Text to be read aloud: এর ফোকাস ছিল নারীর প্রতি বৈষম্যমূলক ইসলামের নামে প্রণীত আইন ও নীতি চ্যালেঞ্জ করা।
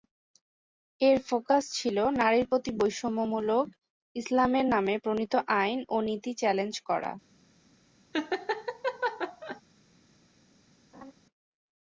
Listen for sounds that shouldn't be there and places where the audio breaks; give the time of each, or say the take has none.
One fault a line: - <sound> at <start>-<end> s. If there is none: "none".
- laugh at 8.1-9.6 s
- laugh at 10.9-11.1 s